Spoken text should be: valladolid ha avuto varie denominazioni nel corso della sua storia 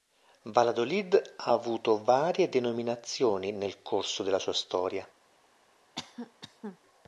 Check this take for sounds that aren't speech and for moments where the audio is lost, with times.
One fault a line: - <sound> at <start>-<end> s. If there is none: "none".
- cough at 5.9-6.8 s